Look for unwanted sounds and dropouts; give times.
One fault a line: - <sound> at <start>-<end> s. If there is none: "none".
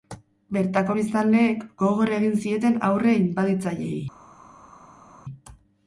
none